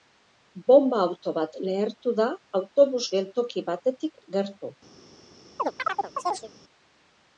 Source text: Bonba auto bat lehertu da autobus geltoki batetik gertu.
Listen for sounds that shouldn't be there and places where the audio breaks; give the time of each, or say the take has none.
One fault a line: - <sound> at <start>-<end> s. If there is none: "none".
- chirp at 5.6-6.5 s